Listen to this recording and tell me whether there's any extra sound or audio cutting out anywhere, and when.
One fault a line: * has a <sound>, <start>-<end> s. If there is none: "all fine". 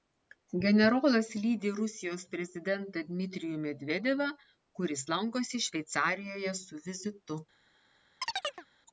* has a chirp, 8.2-8.7 s